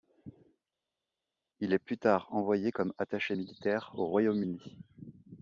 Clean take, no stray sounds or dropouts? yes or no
yes